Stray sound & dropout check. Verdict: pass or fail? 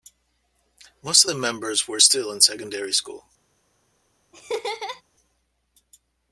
fail